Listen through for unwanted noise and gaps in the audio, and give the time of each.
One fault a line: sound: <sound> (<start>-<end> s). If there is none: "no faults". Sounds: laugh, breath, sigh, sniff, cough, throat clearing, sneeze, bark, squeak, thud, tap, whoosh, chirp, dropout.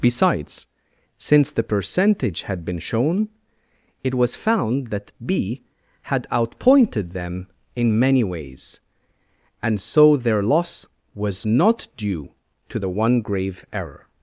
no faults